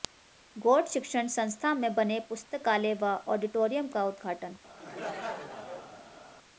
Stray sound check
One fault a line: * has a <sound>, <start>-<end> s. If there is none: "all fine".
* has a laugh, 4.8-6.2 s